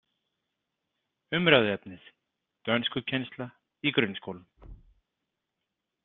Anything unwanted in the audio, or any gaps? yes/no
yes